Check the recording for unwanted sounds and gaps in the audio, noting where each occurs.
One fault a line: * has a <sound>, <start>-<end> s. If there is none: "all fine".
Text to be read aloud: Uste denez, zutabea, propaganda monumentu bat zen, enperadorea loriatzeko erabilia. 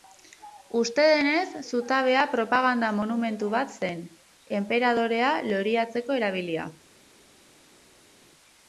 all fine